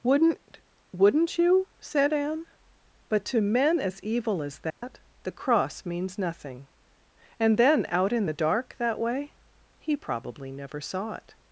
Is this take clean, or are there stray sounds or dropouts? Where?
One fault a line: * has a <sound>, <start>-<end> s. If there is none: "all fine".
* has a dropout, 4.7-4.8 s